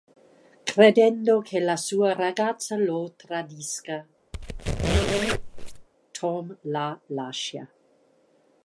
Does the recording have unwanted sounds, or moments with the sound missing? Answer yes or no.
yes